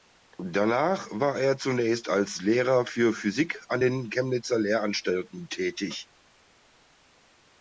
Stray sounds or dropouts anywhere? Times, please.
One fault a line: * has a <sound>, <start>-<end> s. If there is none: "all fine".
all fine